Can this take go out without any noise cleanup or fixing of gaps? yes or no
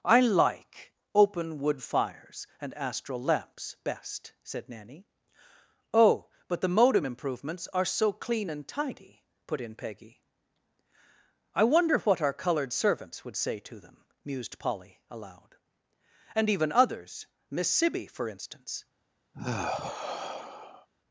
no